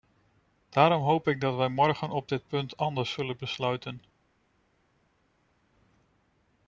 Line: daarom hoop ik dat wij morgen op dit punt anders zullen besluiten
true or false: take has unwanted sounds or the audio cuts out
false